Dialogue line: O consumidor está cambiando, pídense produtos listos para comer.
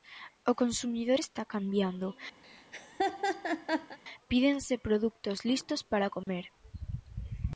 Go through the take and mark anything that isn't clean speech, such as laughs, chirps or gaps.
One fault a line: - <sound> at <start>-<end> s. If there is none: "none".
- laugh at 2.4-4.0 s
- dropout at 6.2-6.3 s